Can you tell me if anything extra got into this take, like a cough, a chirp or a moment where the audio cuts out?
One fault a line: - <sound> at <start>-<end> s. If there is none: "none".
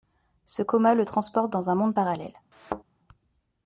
- thud at 2.5-2.8 s